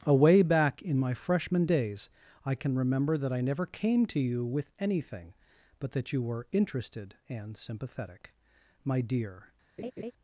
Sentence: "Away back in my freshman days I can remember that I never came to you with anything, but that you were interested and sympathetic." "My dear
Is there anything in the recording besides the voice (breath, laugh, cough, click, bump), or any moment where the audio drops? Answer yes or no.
yes